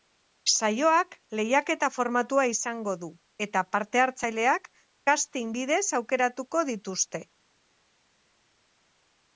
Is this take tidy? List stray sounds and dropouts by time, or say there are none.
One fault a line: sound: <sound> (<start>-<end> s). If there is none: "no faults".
no faults